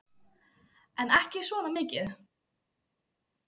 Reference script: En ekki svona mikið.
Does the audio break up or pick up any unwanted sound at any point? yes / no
no